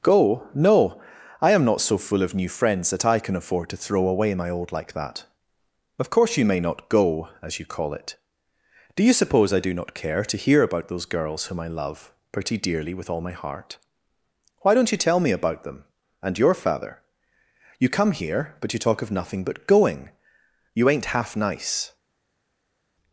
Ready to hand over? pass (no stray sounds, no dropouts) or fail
pass